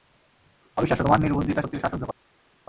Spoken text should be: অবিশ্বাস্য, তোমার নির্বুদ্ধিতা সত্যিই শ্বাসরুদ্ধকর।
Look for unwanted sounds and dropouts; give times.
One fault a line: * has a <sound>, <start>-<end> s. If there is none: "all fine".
all fine